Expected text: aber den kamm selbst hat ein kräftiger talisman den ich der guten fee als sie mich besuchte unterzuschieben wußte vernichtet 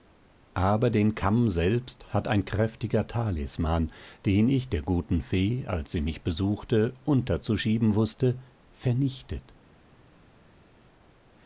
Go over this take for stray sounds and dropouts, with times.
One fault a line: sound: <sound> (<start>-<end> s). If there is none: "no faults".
no faults